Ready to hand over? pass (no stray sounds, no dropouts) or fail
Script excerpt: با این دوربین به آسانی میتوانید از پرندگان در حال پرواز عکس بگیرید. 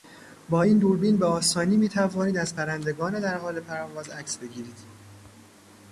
pass